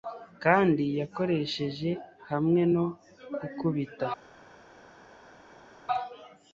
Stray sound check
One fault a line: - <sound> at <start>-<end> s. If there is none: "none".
none